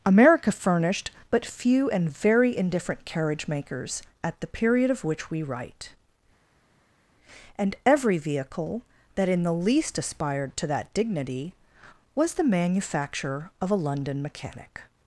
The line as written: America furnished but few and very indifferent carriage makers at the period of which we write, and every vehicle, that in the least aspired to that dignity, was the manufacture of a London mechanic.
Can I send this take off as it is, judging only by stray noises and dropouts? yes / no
yes